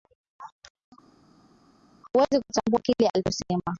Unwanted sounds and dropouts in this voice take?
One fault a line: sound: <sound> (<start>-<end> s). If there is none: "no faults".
no faults